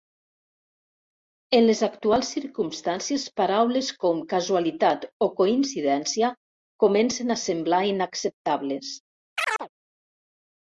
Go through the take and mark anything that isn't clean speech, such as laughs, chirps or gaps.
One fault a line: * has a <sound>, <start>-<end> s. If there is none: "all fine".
* has a chirp, 9.4-9.7 s